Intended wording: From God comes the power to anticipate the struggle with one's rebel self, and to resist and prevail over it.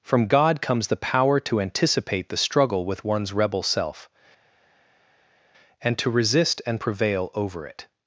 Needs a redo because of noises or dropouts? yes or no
no